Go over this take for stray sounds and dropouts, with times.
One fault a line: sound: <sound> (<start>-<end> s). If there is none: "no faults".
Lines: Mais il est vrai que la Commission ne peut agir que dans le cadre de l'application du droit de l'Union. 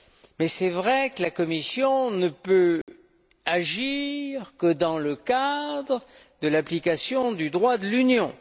sound: dropout (2.8-2.9 s)